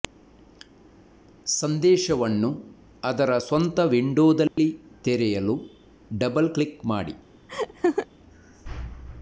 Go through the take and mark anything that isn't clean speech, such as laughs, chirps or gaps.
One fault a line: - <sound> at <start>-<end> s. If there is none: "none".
- dropout at 4.5-4.6 s
- laugh at 7.5-8.1 s